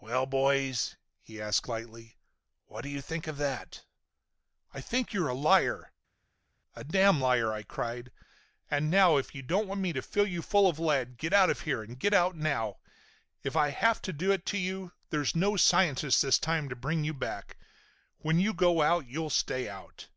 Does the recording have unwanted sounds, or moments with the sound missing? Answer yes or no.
no